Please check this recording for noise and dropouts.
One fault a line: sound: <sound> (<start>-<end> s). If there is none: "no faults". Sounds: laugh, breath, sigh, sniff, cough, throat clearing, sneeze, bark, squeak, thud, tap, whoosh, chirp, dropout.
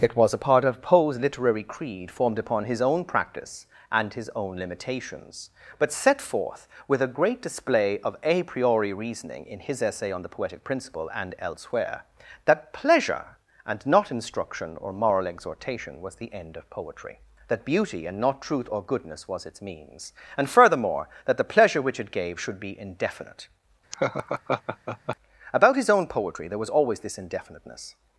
sound: laugh (23.9-25.2 s)